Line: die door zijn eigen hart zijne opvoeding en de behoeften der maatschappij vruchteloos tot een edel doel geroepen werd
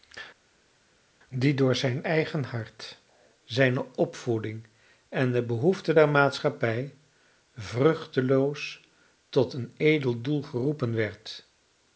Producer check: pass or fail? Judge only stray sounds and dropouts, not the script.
pass